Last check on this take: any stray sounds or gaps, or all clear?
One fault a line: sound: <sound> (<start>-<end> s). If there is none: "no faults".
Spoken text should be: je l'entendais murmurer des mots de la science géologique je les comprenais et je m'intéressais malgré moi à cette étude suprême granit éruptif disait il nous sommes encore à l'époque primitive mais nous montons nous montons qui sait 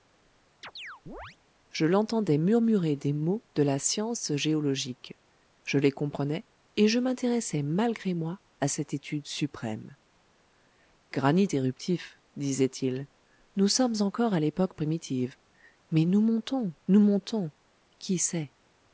sound: chirp (0.6-1.4 s)